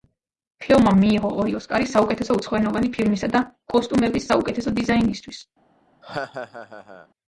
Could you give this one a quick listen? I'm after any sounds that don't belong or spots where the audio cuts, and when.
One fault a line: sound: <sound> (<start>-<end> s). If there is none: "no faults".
sound: laugh (6.0-7.1 s)